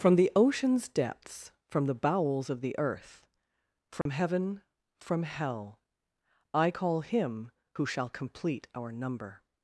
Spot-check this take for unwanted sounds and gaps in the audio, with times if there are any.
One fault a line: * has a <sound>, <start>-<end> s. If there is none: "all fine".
* has a dropout, 4.0-4.1 s